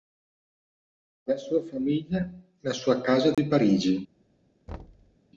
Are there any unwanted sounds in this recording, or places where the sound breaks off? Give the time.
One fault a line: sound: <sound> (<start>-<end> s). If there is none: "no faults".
sound: dropout (3.3-3.4 s)
sound: thud (4.7-5.2 s)